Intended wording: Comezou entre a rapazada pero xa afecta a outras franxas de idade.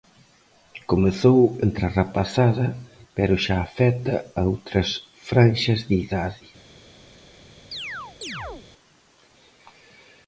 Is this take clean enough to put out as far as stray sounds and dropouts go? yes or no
no